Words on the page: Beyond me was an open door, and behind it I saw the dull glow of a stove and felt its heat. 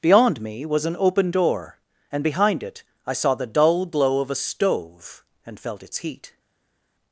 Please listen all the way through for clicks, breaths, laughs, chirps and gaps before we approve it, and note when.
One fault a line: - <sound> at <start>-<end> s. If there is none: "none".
none